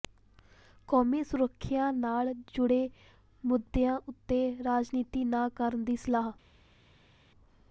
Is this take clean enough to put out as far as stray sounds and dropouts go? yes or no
yes